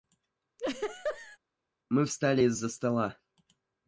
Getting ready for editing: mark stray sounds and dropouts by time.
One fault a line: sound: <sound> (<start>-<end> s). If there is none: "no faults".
sound: laugh (0.6-1.4 s)